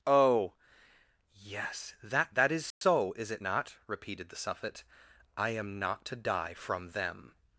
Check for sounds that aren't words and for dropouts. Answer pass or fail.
fail